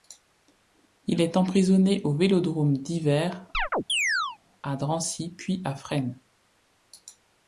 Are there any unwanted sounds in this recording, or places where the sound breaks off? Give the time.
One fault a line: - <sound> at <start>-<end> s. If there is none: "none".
- chirp at 3.5-4.4 s